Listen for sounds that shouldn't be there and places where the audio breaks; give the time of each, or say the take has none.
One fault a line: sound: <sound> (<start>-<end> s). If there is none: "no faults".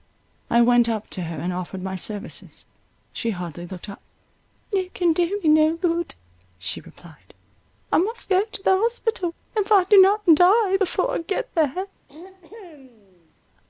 sound: throat clearing (12.1-13.3 s)